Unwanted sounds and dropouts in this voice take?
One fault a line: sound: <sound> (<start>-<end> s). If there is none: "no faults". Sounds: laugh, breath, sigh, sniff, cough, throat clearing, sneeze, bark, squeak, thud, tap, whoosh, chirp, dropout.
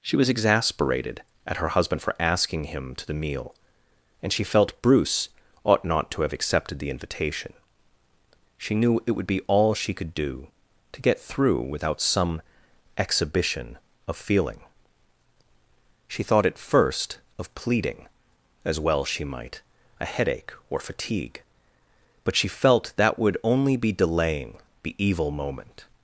no faults